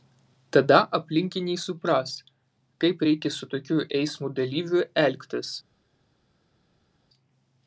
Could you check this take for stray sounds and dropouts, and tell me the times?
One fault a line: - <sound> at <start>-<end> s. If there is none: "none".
none